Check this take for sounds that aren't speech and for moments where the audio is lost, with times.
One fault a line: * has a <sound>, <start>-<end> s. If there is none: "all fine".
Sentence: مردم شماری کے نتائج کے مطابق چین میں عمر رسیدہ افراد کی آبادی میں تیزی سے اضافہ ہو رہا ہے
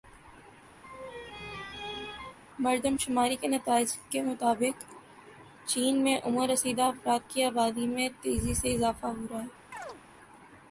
* has a laugh, 0.8-2.4 s
* has a chirp, 9.7-10.0 s